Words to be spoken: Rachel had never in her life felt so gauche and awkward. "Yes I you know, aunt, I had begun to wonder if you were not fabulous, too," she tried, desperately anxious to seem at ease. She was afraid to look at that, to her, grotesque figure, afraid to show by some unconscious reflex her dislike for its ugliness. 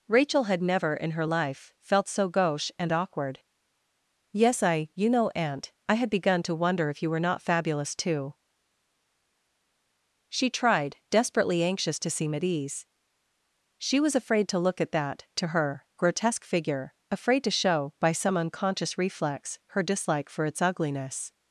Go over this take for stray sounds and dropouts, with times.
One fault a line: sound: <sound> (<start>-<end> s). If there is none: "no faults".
no faults